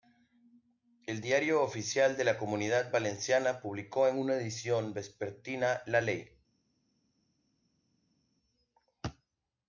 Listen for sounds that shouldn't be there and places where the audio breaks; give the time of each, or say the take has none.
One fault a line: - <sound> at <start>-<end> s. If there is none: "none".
none